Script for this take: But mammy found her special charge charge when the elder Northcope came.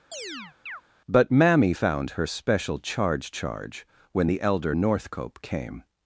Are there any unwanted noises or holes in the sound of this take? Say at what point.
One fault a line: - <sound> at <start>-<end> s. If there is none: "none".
- chirp at 0.1-0.8 s